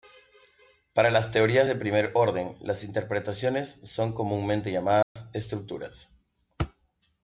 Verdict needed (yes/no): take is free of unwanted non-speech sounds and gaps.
no